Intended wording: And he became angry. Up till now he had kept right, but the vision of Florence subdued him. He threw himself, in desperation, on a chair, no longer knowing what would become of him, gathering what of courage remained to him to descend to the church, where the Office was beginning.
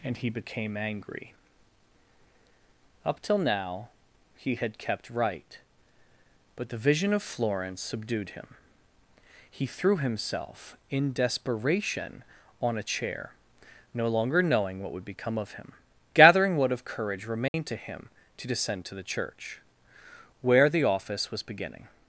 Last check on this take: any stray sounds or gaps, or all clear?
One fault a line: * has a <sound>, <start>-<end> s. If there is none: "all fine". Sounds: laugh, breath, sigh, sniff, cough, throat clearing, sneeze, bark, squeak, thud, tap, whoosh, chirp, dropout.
* has a dropout, 17.5-17.5 s